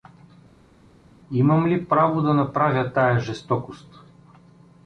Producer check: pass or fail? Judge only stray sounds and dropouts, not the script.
pass